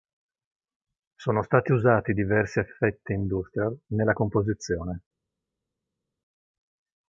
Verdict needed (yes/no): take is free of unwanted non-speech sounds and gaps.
yes